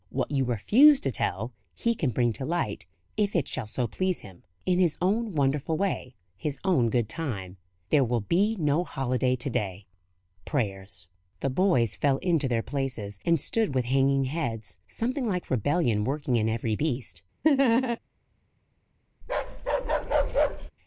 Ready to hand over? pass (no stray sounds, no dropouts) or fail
fail